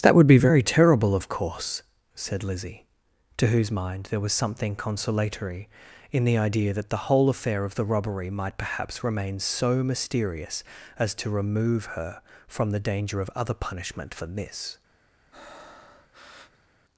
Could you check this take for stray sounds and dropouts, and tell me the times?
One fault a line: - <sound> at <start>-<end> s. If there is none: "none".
- breath at 15.3-16.7 s